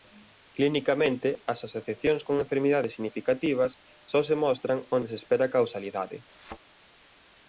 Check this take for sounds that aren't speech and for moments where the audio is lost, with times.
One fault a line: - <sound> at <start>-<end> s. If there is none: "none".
- thud at 6.3-6.6 s